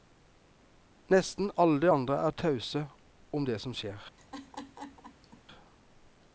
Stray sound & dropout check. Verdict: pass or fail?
fail